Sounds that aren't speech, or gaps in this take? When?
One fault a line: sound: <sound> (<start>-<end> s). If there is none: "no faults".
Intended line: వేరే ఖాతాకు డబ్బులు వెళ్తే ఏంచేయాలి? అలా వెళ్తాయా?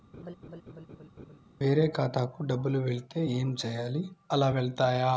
sound: laugh (0.1-1.4 s)